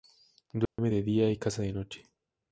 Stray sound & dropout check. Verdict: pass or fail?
fail